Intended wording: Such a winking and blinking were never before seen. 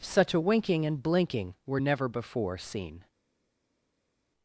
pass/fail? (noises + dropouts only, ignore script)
pass